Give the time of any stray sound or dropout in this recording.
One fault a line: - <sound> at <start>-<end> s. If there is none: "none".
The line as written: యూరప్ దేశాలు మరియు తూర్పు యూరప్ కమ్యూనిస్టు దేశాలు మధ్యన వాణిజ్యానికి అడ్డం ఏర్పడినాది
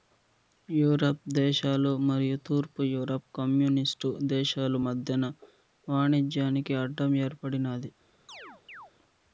- chirp at 8.3-8.9 s